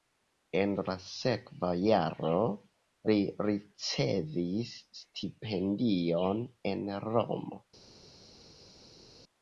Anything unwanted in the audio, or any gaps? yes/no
no